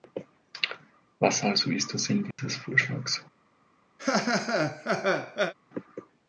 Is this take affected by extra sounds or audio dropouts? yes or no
yes